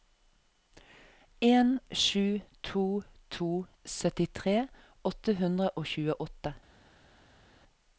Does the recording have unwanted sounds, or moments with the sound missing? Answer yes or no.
no